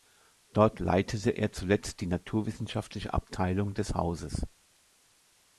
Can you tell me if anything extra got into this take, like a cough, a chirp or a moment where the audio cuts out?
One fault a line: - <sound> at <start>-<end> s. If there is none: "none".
none